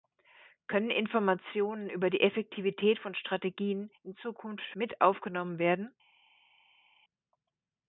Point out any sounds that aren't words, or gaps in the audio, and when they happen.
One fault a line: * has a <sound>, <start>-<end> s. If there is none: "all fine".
all fine